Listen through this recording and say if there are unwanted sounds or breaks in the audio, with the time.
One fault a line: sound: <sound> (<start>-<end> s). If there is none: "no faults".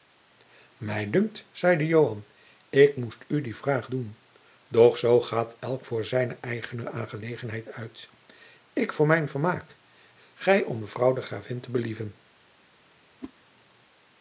sound: whoosh (13.2-13.3 s)